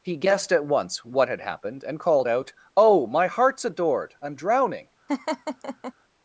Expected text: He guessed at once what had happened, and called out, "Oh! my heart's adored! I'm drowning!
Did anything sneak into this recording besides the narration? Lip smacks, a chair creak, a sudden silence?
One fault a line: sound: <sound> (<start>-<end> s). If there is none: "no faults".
sound: laugh (5.1-5.9 s)